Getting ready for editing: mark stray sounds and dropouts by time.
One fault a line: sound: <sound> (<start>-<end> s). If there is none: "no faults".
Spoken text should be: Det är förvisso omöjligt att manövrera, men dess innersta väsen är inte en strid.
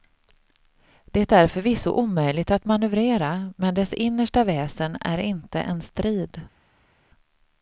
no faults